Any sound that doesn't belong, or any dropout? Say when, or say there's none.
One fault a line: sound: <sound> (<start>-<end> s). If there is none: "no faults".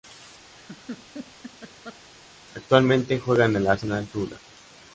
sound: laugh (0.6-2.0 s)